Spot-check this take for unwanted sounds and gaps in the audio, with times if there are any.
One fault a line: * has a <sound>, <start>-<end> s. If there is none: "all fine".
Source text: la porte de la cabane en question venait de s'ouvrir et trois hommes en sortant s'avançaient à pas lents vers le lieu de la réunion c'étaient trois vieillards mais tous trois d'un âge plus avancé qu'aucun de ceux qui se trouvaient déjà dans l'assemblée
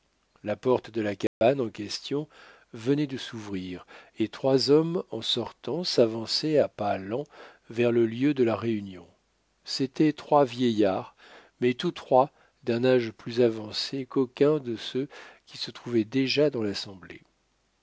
* has a dropout, 1.3-1.4 s